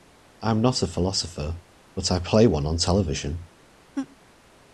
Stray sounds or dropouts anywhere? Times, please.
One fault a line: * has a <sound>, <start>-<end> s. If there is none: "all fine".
* has a laugh, 3.9-4.2 s